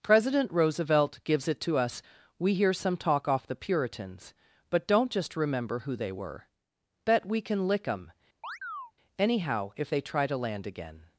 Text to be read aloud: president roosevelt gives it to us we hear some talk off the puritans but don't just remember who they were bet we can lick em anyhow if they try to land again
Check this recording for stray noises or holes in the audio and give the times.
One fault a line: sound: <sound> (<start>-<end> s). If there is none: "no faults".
sound: chirp (8.4-8.9 s)